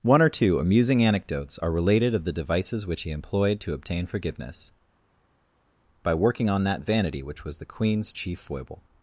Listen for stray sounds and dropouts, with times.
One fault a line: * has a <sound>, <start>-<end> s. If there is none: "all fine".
all fine